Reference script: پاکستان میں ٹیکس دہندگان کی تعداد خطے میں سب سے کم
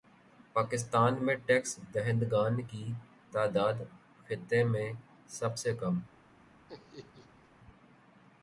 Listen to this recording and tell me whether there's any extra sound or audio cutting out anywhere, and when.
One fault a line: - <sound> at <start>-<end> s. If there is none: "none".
- laugh at 6.7-7.5 s